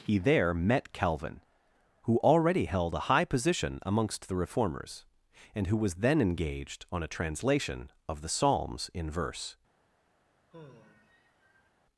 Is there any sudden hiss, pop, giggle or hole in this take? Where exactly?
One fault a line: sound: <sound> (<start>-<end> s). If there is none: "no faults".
sound: sigh (10.5-11.7 s)